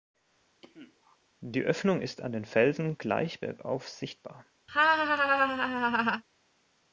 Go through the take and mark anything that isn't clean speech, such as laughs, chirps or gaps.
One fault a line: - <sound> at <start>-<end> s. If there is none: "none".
- cough at 0.6-1.2 s
- laugh at 4.7-6.2 s